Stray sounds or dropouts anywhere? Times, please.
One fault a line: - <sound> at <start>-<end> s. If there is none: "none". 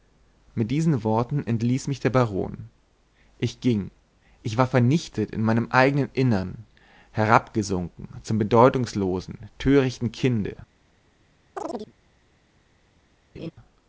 - chirp at 11.6-11.9 s
- laugh at 13.3-13.5 s